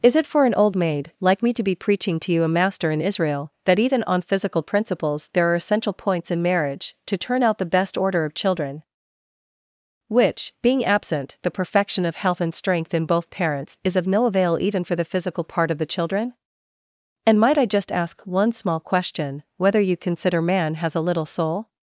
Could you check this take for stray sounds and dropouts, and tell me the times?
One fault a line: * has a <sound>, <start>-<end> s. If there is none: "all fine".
all fine